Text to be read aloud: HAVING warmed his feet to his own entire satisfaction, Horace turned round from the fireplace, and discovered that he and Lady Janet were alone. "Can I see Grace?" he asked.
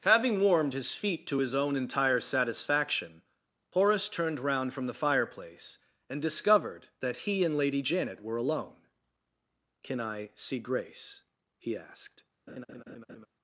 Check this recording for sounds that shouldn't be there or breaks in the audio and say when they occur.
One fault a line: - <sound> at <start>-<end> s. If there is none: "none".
- laugh at 12.5-13.3 s